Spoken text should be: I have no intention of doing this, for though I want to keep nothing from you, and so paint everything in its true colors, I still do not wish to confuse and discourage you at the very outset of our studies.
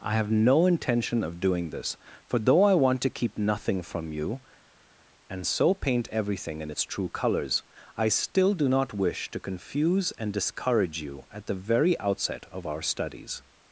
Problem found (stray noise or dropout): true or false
false